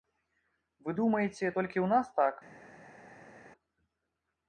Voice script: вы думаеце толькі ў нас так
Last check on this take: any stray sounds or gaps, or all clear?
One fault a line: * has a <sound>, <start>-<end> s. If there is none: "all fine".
all fine